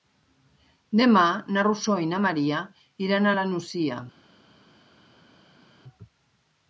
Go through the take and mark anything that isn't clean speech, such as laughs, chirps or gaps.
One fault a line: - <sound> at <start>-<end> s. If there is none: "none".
none